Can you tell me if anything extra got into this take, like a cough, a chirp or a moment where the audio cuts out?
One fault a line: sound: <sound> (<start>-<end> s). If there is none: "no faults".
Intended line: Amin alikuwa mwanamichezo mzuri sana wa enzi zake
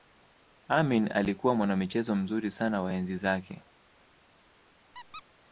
sound: squeak (4.9-5.2 s)